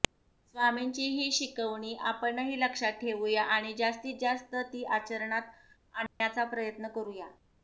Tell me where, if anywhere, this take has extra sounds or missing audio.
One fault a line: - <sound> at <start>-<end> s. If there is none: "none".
- dropout at 6.1-6.2 s